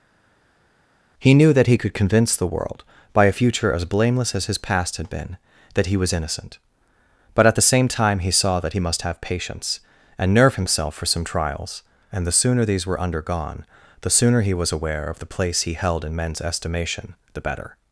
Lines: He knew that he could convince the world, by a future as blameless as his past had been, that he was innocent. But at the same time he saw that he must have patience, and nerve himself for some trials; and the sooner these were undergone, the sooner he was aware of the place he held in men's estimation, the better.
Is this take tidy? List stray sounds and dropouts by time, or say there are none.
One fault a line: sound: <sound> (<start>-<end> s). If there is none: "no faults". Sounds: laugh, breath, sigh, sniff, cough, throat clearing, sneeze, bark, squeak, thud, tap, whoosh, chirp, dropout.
no faults